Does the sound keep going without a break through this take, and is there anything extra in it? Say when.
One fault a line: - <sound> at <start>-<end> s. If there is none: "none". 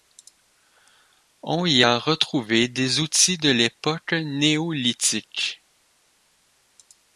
none